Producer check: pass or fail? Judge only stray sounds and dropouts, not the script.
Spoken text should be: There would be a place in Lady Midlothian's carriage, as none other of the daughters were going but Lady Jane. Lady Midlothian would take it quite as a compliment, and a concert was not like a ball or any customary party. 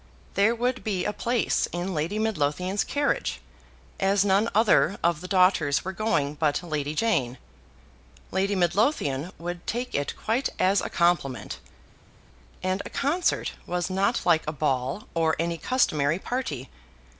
pass